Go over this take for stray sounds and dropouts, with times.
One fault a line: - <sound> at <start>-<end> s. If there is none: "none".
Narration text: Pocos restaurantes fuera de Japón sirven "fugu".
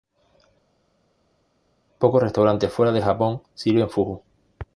none